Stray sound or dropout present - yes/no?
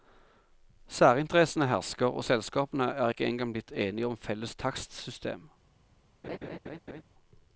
yes